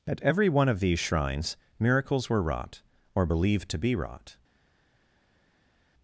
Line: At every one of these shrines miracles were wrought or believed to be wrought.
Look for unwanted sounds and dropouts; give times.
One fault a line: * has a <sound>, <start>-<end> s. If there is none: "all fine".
all fine